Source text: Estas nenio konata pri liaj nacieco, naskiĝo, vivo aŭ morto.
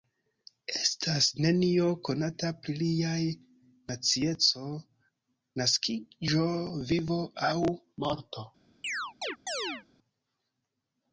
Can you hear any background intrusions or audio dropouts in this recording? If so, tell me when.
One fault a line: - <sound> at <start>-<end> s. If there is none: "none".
- chirp at 8.8-9.8 s